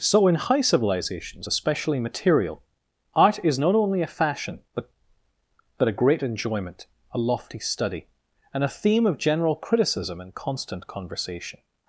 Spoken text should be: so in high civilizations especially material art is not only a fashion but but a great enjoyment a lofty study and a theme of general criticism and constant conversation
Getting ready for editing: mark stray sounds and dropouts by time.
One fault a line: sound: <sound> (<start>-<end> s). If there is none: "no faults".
no faults